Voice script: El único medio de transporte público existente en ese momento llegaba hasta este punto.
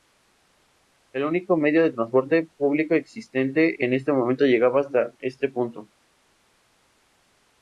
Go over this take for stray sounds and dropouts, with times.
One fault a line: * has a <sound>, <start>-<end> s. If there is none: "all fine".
all fine